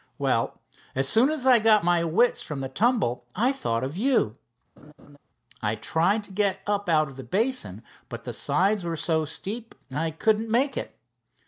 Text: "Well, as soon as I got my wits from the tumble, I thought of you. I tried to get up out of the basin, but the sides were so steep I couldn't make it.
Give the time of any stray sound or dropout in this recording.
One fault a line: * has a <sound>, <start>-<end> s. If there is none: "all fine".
* has a laugh, 4.8-5.2 s